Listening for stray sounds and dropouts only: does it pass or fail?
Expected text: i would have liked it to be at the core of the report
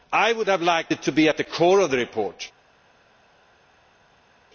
pass